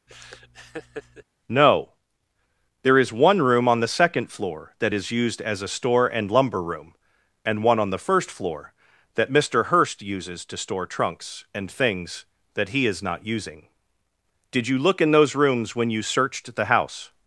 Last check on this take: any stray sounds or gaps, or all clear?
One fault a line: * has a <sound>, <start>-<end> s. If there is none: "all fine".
* has a laugh, 0.1-1.2 s